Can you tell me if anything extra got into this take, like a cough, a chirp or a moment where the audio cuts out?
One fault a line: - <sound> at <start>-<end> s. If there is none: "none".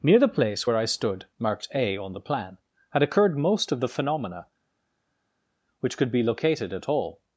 none